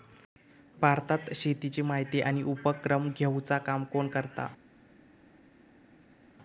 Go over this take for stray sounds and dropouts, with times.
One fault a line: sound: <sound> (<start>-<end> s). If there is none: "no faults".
no faults